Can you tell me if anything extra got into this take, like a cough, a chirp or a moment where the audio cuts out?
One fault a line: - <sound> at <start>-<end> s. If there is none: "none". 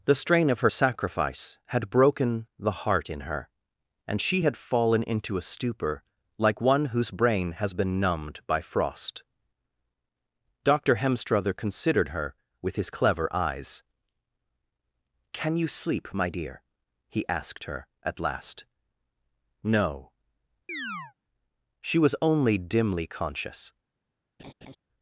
- chirp at 20.7-21.1 s
- laugh at 24.4-24.8 s